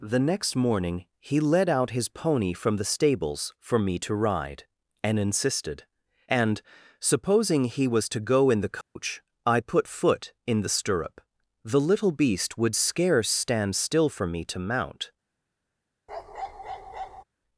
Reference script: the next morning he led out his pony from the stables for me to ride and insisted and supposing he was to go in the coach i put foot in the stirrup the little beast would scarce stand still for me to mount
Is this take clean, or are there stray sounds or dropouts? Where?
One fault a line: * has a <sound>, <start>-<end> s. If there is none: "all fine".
* has a dropout, 8.8-9.0 s
* has a bark, 16.1-17.2 s